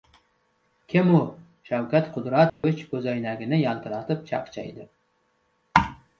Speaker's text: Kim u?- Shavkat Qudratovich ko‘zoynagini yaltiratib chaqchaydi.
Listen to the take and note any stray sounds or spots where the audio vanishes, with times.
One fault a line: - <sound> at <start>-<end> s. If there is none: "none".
- dropout at 2.5-2.6 s